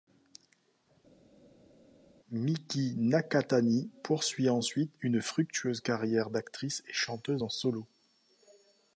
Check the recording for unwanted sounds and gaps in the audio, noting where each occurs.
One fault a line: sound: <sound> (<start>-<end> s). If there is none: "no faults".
no faults